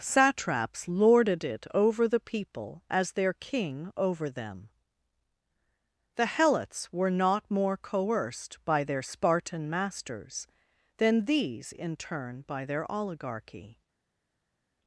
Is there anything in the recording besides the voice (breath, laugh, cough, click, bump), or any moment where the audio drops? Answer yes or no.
no